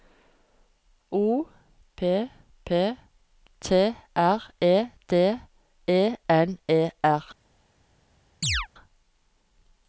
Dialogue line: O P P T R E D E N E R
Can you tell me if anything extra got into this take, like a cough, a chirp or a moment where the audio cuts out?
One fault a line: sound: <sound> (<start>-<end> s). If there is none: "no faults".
sound: chirp (8.4-8.7 s)